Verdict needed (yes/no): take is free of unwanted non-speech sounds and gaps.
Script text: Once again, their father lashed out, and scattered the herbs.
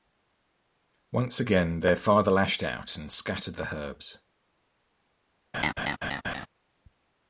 no